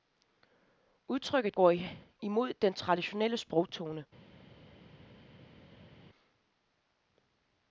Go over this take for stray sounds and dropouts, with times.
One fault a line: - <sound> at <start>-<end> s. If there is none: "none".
none